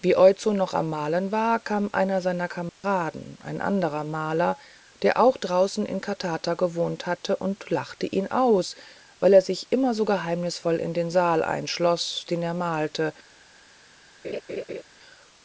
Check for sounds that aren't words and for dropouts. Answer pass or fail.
fail